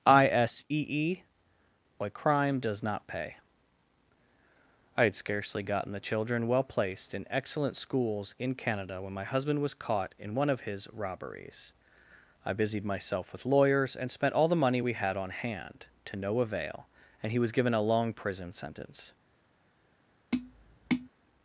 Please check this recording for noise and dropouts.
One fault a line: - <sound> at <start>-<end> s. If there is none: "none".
- tap at 20.3-21.1 s